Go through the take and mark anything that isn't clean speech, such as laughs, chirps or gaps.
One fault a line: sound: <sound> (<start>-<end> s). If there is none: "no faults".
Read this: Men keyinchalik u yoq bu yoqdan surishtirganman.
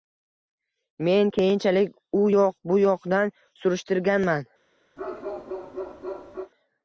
sound: bark (5.0-6.5 s)